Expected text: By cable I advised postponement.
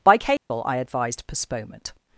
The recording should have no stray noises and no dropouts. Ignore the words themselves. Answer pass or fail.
fail